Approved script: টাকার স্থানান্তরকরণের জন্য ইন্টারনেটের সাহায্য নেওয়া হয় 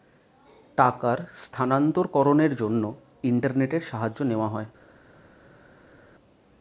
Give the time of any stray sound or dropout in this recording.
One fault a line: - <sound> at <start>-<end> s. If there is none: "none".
none